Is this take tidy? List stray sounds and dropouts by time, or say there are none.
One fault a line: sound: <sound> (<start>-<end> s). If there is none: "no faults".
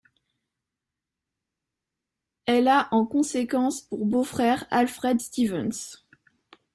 no faults